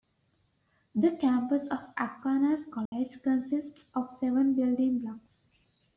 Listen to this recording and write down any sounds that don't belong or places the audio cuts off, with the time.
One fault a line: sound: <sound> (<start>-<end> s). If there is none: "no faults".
sound: dropout (2.9-2.9 s)